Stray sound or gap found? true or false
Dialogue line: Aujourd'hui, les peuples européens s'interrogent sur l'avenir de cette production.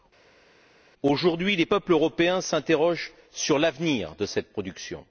false